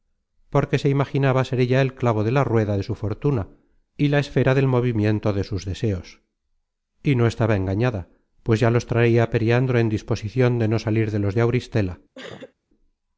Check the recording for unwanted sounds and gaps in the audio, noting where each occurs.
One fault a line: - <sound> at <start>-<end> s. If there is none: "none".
- sneeze at 12.2-12.5 s